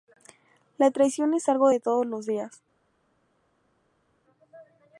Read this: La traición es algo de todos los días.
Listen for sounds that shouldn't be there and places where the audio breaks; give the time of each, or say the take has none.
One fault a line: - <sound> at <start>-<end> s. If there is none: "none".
none